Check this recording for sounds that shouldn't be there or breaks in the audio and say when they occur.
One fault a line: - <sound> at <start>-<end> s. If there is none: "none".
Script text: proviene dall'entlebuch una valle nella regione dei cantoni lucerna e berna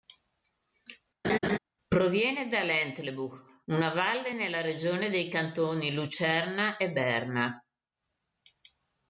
- laugh at 1.2-1.6 s